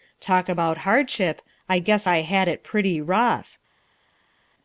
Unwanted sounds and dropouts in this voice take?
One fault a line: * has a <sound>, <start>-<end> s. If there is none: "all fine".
all fine